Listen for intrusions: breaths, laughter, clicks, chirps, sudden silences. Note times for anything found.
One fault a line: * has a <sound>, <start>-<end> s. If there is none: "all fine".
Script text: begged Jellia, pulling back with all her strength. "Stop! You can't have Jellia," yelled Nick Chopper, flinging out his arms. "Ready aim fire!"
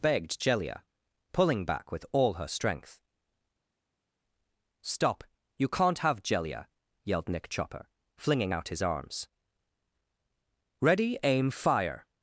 all fine